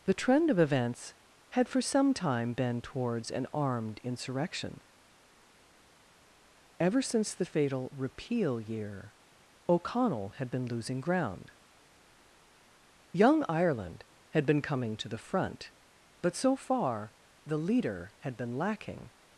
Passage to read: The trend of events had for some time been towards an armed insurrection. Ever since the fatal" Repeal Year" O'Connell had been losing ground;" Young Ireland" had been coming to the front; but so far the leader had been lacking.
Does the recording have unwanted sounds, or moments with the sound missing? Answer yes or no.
no